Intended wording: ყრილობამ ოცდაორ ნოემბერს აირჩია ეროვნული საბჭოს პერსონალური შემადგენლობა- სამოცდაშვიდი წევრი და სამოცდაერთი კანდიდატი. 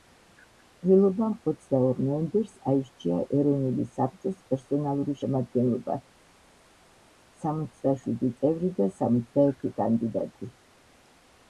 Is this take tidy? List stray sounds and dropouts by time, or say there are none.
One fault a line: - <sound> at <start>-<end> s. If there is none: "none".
none